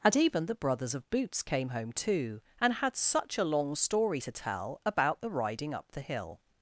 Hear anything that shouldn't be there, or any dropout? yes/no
no